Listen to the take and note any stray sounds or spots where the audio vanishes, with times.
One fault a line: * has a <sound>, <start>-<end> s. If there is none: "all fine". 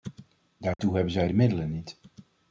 * has a dropout, 0.7-0.8 s